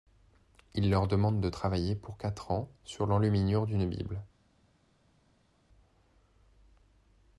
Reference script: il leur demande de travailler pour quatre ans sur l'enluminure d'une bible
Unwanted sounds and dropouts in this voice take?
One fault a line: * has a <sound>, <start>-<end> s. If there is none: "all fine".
all fine